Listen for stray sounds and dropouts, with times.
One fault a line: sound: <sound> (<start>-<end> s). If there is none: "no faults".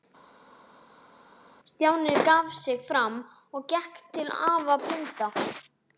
no faults